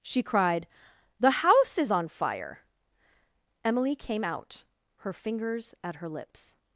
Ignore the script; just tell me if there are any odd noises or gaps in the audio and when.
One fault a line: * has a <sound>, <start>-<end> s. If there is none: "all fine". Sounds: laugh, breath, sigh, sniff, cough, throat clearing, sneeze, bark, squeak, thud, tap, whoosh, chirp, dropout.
all fine